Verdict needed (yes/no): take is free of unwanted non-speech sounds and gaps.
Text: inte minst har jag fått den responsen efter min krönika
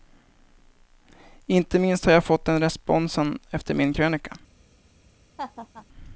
no